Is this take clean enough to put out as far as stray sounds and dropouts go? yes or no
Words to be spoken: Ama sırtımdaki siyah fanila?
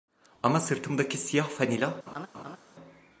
no